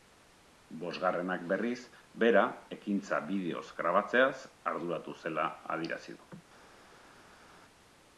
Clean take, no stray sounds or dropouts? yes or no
yes